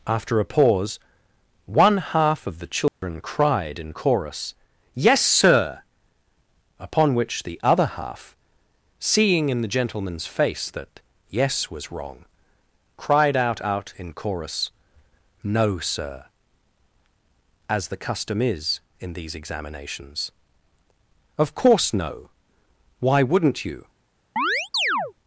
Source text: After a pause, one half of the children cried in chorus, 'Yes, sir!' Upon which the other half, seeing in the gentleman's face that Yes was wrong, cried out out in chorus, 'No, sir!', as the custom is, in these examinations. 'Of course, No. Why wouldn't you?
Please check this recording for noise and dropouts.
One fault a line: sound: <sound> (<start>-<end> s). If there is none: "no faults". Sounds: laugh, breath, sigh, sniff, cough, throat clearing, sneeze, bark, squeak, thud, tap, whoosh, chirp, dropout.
sound: dropout (2.9-3.0 s)
sound: chirp (24.4-25.1 s)